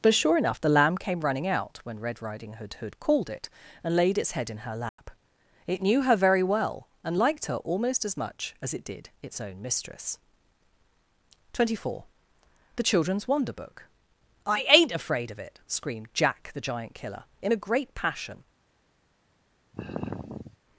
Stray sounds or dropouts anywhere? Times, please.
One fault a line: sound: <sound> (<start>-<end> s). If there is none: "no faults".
sound: dropout (4.9-5.0 s)
sound: sigh (19.7-20.6 s)